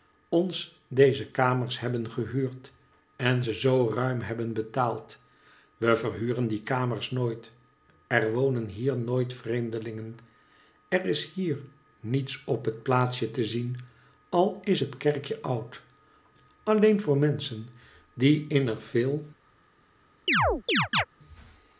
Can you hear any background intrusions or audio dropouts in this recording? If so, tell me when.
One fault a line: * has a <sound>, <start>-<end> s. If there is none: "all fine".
* has a chirp, 20.3-21.1 s